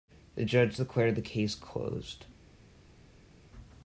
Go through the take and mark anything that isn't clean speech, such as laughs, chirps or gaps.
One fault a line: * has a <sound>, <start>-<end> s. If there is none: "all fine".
all fine